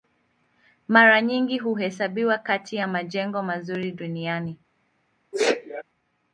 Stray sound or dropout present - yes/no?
yes